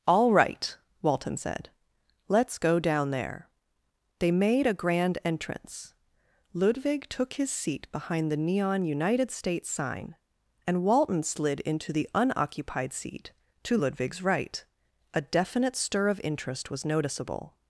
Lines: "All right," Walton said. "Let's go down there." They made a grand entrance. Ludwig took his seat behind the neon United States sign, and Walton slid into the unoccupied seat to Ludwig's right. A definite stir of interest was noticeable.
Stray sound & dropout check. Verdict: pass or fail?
pass